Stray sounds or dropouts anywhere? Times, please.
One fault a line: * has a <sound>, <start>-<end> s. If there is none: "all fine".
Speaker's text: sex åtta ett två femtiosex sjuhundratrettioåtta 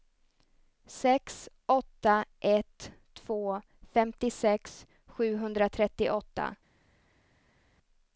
all fine